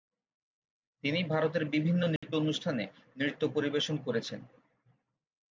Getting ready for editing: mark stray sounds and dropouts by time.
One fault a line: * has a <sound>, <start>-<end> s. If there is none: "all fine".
* has a dropout, 2.2-2.2 s